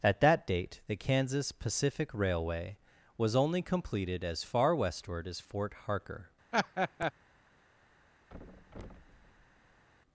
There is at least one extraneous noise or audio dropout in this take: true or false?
true